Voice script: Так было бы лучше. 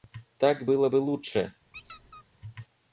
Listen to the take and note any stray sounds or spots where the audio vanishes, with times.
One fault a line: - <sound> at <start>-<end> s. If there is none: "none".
- squeak at 1.7-2.2 s